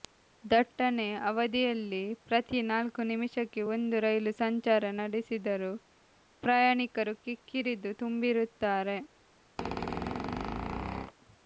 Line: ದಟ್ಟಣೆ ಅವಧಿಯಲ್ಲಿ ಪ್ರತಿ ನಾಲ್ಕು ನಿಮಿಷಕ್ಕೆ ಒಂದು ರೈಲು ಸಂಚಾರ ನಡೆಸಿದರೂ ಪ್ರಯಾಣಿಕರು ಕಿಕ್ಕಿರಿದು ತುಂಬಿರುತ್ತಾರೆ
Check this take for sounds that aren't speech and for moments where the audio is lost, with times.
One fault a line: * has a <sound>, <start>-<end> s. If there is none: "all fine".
* has a squeak, 9.6-11.1 s